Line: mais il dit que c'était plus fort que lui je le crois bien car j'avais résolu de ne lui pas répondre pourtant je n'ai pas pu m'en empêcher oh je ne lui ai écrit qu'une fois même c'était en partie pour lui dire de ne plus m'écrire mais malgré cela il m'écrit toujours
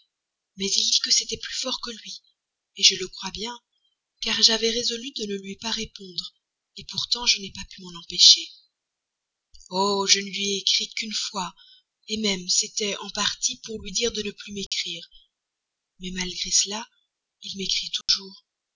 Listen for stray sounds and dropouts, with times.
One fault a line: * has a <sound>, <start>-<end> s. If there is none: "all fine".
* has a dropout, 14.7-14.7 s
* has a dropout, 18.0-18.1 s